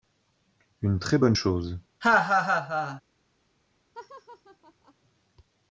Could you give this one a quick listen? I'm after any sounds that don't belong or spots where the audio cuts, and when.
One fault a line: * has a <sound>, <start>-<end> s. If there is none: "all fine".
* has a laugh, 2.0-3.0 s
* has a laugh, 3.9-4.9 s